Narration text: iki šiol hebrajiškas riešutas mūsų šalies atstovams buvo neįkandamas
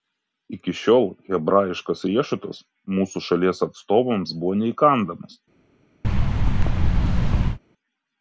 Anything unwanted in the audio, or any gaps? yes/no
yes